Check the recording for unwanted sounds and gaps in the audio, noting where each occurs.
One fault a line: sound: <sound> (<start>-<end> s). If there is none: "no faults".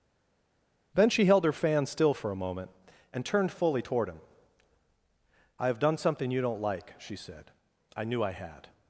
no faults